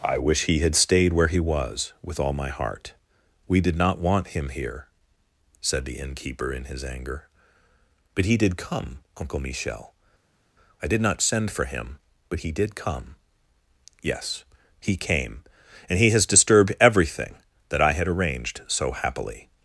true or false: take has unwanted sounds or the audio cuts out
false